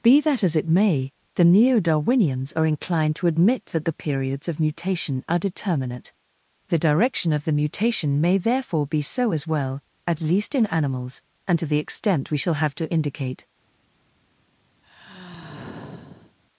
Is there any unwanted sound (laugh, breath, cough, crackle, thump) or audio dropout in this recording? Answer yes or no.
yes